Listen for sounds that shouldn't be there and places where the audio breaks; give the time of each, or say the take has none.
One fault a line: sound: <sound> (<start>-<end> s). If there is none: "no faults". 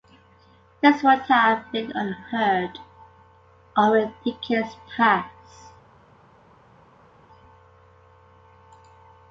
no faults